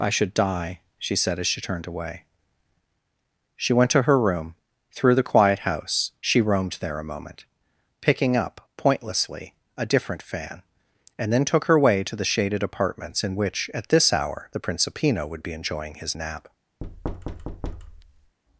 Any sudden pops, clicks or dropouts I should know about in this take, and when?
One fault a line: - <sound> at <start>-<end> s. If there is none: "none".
- thud at 16.8-18.4 s